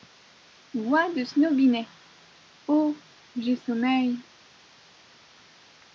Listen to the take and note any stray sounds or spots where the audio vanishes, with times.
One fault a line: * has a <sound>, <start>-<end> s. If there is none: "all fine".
all fine